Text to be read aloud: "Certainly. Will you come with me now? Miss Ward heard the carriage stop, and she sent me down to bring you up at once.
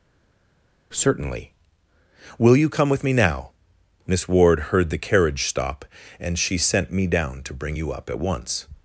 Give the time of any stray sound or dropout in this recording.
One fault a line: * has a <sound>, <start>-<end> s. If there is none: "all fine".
all fine